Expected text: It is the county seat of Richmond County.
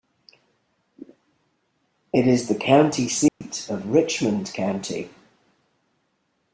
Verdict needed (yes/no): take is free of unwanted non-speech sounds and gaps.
no